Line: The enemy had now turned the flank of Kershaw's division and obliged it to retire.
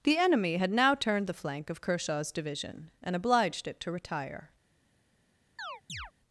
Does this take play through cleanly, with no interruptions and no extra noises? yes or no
no